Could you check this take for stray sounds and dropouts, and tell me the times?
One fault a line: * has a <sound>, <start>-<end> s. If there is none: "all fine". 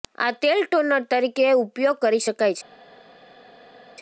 all fine